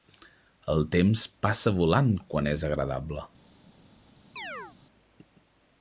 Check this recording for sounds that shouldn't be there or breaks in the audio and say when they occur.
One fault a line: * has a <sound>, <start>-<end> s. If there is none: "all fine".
* has a chirp, 4.4-4.8 s